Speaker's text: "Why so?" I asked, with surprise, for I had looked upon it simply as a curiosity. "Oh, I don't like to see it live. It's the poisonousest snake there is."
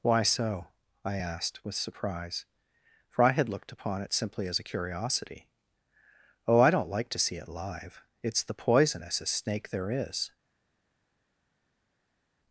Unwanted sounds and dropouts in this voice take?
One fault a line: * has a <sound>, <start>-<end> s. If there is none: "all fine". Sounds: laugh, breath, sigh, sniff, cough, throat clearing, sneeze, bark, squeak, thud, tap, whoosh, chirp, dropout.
all fine